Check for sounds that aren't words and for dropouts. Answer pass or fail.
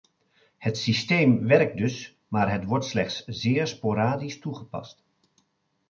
pass